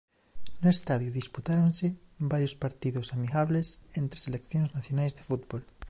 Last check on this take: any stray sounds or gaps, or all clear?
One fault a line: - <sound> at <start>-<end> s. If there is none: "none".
none